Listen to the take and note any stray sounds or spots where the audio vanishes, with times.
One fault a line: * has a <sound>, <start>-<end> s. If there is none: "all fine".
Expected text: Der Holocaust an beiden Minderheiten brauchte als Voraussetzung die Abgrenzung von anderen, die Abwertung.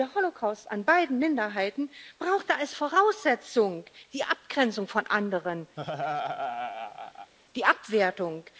* has a laugh, 5.8-7.3 s